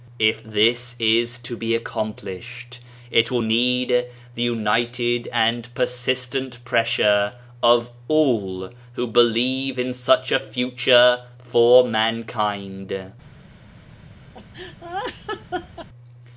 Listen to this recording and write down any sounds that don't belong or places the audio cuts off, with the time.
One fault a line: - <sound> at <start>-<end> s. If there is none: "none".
- laugh at 14.3-15.9 s